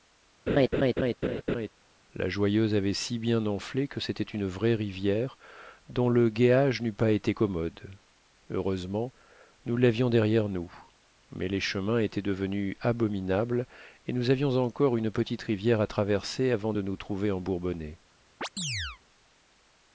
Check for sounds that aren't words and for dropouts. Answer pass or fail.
fail